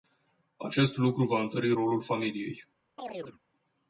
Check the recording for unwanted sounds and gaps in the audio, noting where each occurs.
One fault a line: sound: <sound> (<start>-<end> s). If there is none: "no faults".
sound: chirp (3.0-3.4 s)